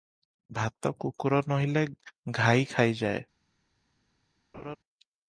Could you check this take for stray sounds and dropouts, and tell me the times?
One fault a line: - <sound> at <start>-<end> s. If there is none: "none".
- laugh at 4.5-4.8 s